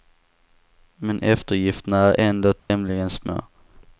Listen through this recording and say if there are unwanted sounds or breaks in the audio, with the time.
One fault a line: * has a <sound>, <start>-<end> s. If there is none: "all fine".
* has a dropout, 2.6-2.7 s